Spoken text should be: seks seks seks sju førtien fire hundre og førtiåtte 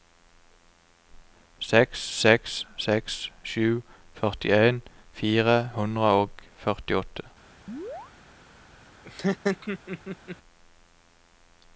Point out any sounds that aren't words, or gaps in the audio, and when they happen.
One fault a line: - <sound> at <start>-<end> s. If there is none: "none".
- chirp at 7.7-8.1 s
- laugh at 9.0-10.4 s